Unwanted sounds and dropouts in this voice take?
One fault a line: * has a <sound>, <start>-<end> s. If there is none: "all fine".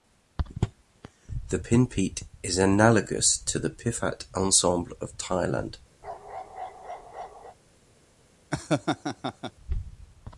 * has a bark, 6.0-7.6 s
* has a laugh, 8.5-9.5 s